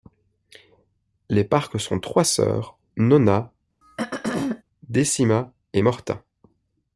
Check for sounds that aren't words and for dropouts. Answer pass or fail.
fail